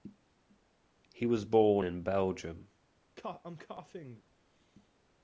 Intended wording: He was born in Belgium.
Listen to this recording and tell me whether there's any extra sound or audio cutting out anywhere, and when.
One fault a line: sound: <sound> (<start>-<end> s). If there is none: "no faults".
sound: cough (3.2-4.2 s)